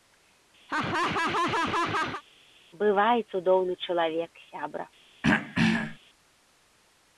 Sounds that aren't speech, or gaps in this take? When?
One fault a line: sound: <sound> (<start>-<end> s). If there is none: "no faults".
sound: laugh (0.7-2.2 s)
sound: throat clearing (5.2-6.0 s)